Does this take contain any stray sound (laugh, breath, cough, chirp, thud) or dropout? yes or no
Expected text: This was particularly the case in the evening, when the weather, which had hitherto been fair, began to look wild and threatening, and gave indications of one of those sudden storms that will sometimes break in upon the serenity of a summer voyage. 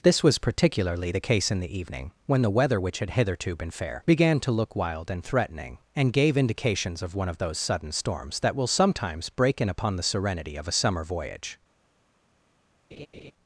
yes